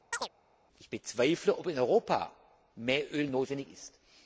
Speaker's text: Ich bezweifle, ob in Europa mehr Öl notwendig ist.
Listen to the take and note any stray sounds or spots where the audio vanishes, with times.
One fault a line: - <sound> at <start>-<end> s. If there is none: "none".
- chirp at 0.1-0.3 s